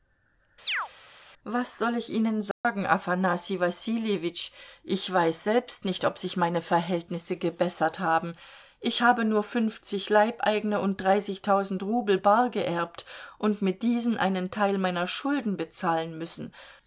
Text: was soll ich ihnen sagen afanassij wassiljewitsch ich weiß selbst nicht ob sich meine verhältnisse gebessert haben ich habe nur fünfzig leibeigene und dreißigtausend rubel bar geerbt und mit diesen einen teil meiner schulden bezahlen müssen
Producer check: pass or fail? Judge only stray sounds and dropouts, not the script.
fail